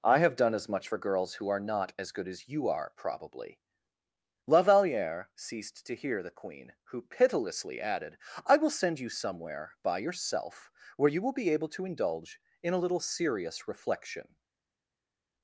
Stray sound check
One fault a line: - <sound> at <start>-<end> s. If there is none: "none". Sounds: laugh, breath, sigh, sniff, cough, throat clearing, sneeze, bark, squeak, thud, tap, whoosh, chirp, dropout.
none